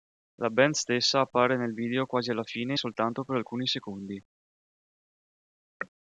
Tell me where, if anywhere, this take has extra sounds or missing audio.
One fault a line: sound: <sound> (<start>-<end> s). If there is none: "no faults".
no faults